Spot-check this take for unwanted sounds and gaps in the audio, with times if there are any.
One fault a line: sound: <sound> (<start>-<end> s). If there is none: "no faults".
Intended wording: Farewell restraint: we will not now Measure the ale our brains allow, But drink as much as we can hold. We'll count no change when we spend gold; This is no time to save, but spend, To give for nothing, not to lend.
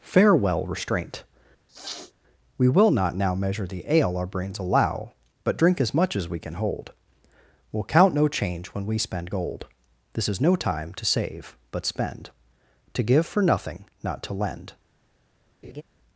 sound: sniff (1.7-2.1 s)
sound: laugh (15.6-15.8 s)